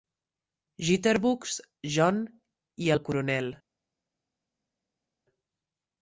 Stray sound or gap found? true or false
false